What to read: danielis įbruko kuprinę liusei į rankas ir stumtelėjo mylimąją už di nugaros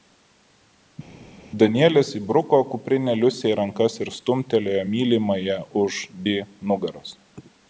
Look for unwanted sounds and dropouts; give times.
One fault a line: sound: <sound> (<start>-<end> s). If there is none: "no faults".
no faults